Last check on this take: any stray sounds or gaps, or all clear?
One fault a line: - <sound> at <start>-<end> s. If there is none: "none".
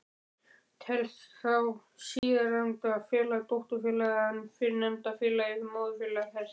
- dropout at 2.2-2.2 s